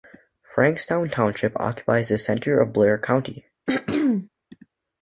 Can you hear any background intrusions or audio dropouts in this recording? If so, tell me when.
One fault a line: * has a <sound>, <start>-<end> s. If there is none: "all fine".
* has a throat clearing, 3.7-4.3 s